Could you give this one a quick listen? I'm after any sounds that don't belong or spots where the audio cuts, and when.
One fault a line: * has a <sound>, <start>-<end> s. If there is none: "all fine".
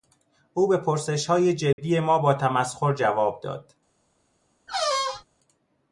* has a dropout, 1.7-1.8 s
* has a squeak, 4.7-5.3 s